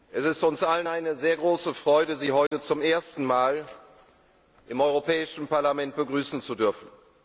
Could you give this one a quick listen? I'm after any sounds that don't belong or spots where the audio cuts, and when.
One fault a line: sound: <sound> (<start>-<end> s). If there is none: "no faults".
sound: dropout (2.5-2.5 s)